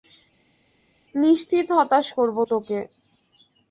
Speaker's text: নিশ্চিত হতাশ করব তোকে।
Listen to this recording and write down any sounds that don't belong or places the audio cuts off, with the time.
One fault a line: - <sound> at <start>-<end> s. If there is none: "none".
none